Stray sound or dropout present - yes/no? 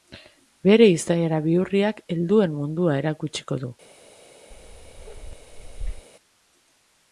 yes